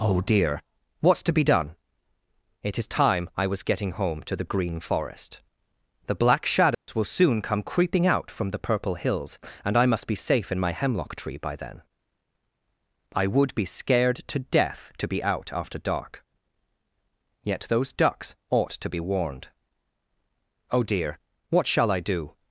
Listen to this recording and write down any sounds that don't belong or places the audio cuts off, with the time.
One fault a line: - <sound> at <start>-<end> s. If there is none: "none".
- dropout at 6.7-6.9 s